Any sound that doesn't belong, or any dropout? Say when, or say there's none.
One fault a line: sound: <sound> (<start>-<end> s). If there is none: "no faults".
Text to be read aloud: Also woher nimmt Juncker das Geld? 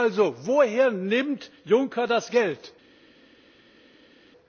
no faults